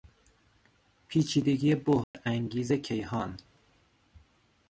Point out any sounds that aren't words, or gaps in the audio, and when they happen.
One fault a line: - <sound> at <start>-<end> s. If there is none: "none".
- dropout at 2.0-2.1 s